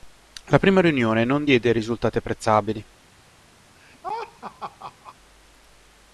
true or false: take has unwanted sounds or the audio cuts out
true